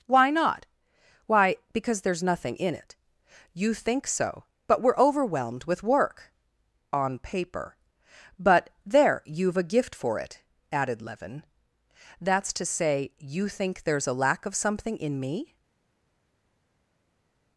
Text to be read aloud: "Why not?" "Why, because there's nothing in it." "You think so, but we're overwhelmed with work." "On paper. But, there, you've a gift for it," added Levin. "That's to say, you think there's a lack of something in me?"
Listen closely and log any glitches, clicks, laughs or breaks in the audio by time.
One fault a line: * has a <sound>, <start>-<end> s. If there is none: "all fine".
all fine